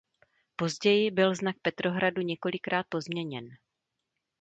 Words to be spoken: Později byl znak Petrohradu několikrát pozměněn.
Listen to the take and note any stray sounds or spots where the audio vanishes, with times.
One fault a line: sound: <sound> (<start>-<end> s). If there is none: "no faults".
no faults